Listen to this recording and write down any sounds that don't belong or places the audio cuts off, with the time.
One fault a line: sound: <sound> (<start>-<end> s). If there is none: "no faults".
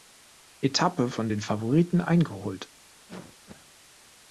sound: cough (3.1-3.7 s)